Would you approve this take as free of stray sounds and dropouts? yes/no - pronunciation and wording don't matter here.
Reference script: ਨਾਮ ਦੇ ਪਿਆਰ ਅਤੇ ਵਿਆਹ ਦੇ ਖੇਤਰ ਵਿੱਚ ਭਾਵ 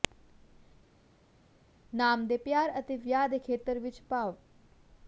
yes